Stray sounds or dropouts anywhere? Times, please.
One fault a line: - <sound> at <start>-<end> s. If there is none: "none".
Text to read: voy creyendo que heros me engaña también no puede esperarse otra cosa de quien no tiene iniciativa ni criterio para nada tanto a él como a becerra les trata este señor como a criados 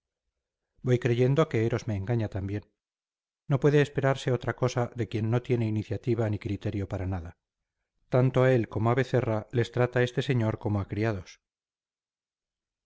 none